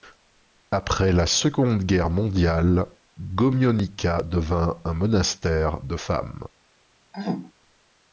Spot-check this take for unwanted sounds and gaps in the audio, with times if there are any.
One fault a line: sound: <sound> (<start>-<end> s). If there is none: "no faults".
sound: throat clearing (7.1-7.5 s)